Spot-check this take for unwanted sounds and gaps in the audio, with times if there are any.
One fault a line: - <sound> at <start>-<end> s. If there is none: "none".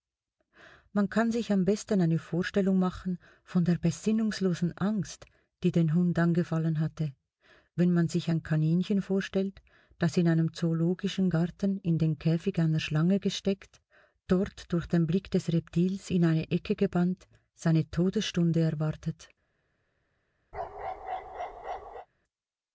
- bark at 20.5-22.1 s